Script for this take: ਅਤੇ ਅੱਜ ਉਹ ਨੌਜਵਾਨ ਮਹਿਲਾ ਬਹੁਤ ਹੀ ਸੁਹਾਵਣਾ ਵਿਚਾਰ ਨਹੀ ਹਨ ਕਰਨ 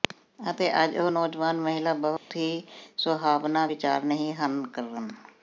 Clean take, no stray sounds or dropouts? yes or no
no